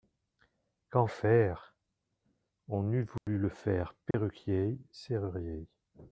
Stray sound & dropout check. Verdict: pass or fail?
fail